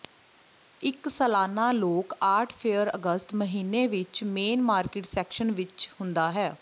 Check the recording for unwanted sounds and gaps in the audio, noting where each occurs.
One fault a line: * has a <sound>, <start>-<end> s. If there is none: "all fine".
all fine